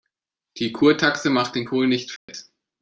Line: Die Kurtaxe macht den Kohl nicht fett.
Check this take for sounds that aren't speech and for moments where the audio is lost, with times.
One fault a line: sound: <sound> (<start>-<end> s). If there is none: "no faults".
sound: dropout (2.2-2.3 s)